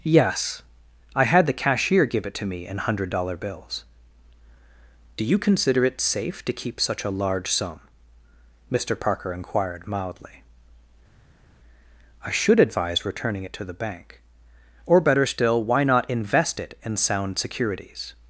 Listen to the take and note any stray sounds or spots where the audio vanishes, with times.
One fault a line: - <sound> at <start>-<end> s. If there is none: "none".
none